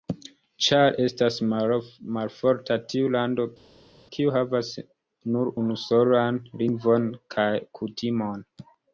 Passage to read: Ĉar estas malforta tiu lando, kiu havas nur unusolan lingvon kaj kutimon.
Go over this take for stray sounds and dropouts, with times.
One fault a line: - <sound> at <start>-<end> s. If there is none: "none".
none